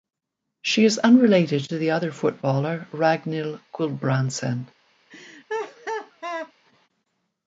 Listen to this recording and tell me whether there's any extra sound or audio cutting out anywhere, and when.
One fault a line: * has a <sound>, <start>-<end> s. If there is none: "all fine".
* has a laugh, 5.1-6.5 s